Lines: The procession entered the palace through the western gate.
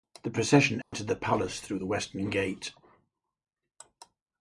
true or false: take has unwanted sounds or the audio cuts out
true